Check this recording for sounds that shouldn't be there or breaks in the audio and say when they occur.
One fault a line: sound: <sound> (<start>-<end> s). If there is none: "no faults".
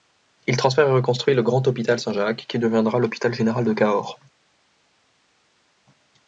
no faults